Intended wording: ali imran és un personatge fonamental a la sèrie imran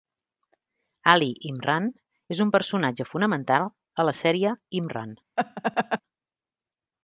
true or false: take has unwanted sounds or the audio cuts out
true